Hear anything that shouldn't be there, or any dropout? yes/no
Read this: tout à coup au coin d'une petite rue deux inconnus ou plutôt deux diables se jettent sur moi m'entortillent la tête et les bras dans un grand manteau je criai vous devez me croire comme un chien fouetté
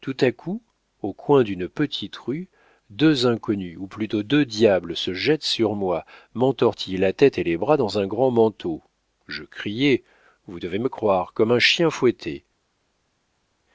no